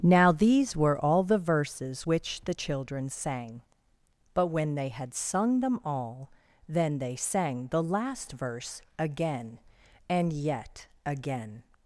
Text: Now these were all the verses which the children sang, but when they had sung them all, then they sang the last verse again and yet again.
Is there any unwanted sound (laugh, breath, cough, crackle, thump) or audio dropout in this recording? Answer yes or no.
no